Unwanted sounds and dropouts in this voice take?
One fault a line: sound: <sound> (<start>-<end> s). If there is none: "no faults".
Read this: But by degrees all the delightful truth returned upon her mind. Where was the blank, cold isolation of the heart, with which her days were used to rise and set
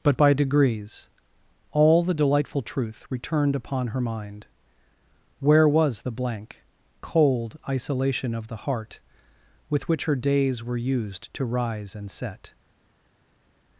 no faults